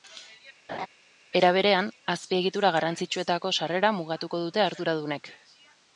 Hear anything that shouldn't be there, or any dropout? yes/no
yes